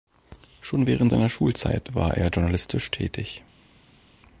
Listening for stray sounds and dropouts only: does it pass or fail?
pass